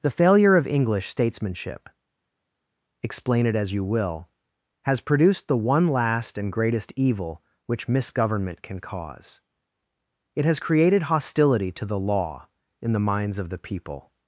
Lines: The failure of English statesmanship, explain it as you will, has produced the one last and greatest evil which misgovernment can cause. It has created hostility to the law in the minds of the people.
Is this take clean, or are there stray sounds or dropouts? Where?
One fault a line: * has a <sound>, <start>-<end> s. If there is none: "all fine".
all fine